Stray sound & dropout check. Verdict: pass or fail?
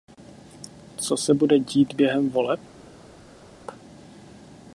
pass